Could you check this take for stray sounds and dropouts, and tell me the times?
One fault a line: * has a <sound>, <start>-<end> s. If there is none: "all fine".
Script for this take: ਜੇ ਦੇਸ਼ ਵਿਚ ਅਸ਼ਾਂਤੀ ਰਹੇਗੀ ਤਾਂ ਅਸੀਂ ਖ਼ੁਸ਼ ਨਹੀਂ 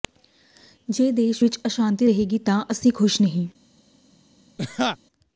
* has a laugh, 4.6-5.0 s